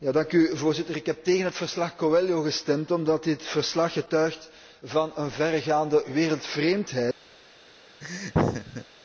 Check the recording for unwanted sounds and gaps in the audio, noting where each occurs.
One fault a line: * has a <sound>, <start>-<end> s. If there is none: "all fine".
* has a laugh, 8.0-8.9 s